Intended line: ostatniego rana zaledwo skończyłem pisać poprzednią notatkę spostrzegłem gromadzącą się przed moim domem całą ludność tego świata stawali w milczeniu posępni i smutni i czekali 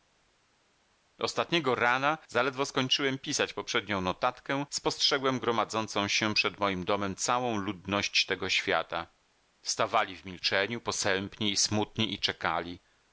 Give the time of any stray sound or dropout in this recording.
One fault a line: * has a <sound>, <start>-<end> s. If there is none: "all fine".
all fine